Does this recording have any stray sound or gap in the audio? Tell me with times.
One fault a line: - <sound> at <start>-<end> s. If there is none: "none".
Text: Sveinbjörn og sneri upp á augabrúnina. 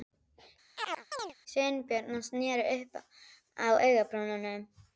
- chirp at 0.8-1.3 s